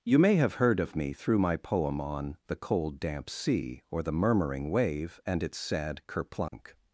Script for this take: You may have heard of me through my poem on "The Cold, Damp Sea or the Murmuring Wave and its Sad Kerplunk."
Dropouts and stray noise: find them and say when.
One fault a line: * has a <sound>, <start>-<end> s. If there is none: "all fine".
* has a dropout, 6.5-6.5 s